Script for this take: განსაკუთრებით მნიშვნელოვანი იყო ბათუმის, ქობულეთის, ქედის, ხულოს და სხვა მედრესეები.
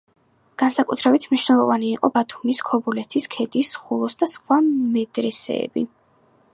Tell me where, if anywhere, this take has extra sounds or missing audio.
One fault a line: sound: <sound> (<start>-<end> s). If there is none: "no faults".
no faults